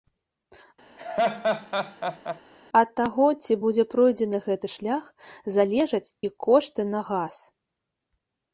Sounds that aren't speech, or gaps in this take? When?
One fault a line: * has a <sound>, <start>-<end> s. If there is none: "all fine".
* has a laugh, 1.0-2.4 s